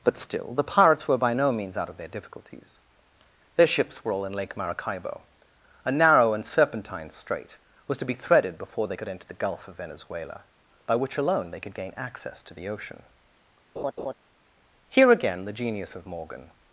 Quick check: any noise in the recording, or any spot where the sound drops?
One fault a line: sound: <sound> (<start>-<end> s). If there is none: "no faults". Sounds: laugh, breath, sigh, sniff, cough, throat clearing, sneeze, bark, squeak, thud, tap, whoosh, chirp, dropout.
sound: laugh (13.8-14.1 s)